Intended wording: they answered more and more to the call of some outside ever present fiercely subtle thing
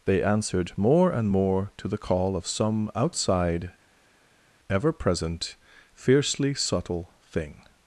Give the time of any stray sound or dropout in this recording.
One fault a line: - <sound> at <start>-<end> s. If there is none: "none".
none